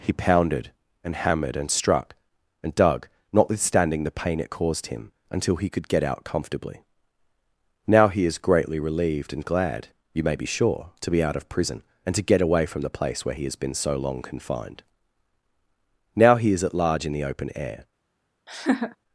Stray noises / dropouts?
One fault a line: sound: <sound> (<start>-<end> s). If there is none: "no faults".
sound: laugh (18.5-19.0 s)